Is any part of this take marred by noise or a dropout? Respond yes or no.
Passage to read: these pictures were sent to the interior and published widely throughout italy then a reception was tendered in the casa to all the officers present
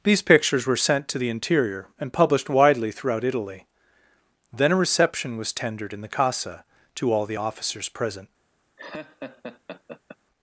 yes